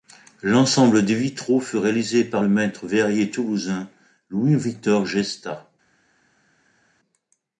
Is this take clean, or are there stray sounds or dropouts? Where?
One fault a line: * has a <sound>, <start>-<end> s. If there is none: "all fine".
all fine